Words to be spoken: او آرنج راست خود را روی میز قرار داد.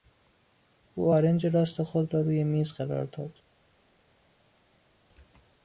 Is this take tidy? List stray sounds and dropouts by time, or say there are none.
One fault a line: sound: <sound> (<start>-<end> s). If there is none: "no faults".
no faults